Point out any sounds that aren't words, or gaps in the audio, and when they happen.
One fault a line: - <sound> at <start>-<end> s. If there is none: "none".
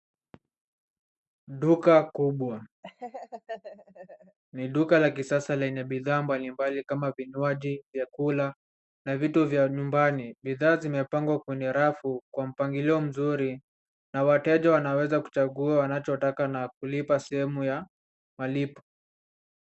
- laugh at 2.8-4.4 s